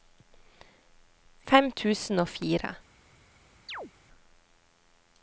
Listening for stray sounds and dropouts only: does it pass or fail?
fail